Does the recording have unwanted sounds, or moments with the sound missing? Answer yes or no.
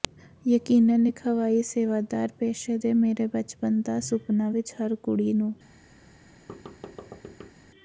yes